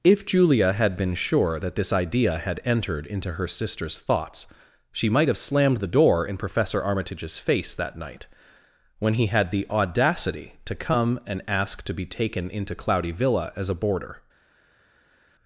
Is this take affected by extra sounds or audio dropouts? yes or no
no